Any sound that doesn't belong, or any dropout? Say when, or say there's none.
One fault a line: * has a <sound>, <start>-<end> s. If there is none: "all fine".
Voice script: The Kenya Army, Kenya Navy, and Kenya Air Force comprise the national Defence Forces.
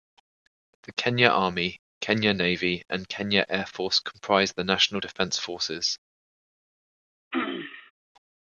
* has a throat clearing, 7.3-7.9 s